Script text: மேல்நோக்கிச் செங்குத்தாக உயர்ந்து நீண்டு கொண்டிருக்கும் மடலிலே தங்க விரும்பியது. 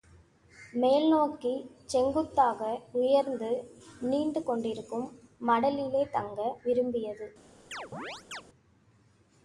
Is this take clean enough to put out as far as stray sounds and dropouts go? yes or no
no